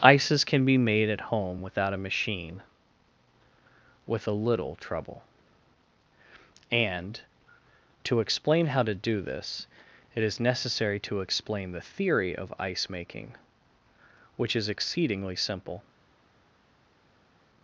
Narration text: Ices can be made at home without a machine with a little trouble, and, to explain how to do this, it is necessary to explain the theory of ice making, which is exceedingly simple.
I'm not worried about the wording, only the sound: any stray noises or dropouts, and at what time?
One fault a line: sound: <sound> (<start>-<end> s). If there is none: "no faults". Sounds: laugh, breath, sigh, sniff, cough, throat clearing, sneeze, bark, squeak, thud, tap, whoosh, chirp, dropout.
no faults